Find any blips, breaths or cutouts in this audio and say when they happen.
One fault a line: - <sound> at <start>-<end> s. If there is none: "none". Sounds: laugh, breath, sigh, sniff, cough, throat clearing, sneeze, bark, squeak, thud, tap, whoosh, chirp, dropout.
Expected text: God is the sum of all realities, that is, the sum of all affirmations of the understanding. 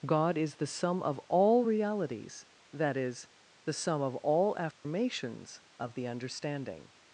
- dropout at 4.7-4.8 s